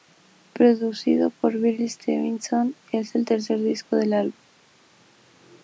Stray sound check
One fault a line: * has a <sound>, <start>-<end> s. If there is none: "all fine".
all fine